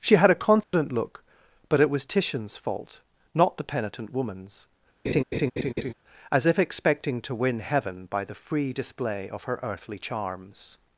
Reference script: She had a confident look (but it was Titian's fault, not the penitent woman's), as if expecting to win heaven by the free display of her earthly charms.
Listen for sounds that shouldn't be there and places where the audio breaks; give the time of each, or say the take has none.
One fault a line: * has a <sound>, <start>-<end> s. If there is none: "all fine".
* has a dropout, 0.6-0.7 s
* has a laugh, 5.0-5.9 s